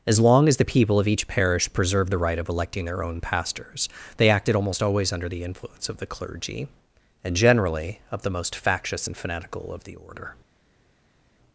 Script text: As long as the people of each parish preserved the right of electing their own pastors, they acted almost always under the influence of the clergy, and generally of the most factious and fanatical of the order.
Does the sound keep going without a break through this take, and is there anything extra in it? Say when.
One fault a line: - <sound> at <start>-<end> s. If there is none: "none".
none